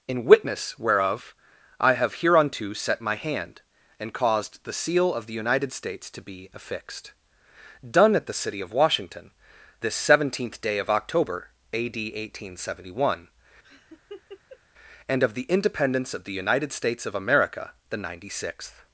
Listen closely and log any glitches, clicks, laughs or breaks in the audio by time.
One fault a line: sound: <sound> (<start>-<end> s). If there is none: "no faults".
sound: laugh (13.6-14.6 s)